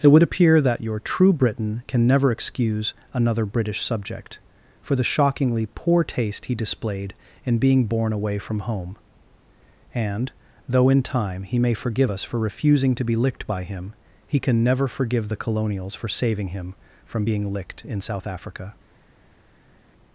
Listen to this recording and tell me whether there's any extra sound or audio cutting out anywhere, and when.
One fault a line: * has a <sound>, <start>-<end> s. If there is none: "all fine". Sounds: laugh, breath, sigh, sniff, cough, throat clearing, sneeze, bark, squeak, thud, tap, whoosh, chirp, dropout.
all fine